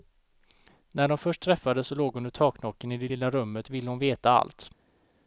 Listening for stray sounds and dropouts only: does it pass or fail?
pass